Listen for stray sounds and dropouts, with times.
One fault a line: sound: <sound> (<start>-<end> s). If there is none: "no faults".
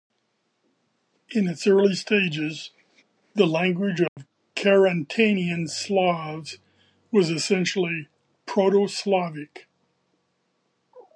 sound: dropout (4.1-4.2 s)